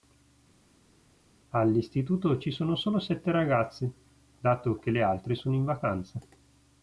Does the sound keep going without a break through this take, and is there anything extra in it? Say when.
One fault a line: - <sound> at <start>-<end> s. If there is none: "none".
none